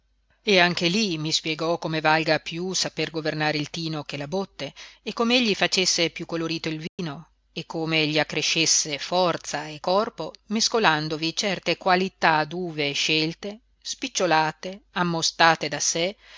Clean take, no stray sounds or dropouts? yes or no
no